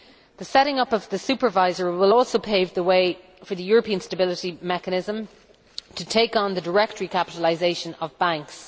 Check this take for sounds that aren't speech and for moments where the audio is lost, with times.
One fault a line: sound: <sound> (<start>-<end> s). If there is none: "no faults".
no faults